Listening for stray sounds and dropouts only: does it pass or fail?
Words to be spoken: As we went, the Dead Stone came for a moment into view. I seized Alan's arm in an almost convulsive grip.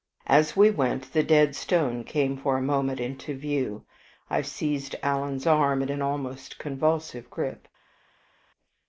pass